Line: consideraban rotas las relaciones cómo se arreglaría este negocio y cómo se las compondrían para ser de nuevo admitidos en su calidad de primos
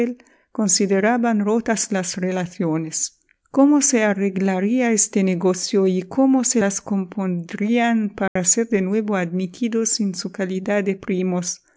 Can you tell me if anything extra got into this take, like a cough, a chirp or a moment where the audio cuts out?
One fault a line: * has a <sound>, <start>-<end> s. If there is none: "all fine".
* has a dropout, 8.3-8.4 s